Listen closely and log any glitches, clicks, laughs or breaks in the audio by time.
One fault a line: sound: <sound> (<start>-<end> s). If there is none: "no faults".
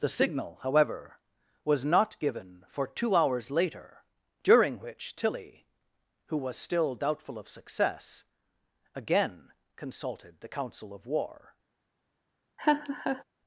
sound: laugh (12.6-13.2 s)